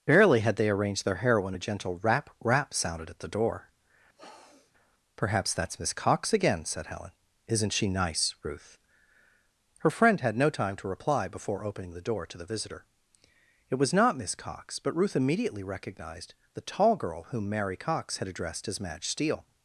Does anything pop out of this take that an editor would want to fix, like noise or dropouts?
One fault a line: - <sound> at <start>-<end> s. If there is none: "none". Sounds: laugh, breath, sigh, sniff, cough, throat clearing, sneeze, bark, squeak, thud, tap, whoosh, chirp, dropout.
- sniff at 4.2-4.7 s